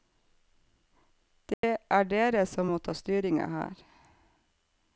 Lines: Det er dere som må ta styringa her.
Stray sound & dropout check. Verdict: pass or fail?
fail